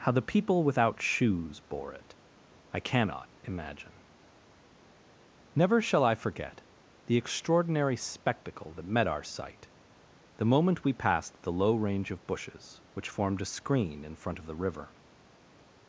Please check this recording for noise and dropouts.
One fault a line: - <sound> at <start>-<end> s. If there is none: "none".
none